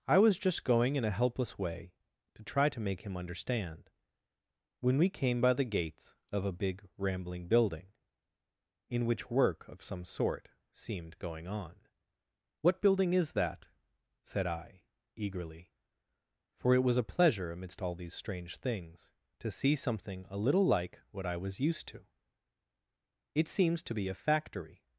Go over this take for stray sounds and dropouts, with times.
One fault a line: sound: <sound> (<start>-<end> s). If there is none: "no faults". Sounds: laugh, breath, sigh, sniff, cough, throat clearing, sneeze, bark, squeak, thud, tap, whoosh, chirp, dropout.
no faults